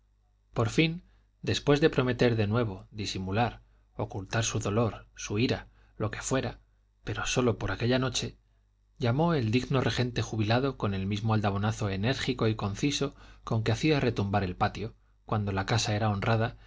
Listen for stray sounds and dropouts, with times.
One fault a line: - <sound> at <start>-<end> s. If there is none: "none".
none